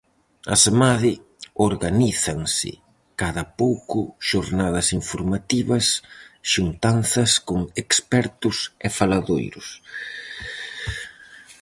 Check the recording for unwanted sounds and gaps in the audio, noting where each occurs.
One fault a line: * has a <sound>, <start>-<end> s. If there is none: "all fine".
all fine